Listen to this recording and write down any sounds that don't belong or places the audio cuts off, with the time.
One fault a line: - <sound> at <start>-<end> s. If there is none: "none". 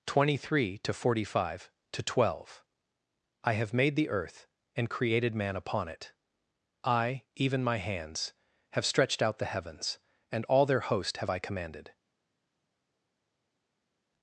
none